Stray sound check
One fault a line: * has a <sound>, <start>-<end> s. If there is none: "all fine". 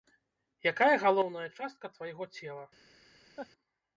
* has a laugh, 3.4-3.5 s